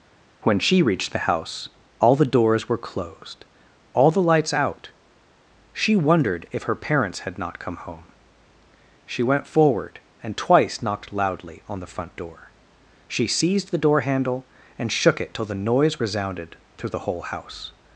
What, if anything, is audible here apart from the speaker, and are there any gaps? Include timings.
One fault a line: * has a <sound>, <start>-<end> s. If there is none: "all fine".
all fine